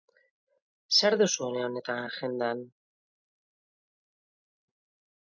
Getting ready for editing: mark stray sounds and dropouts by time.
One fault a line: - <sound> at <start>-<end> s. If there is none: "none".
none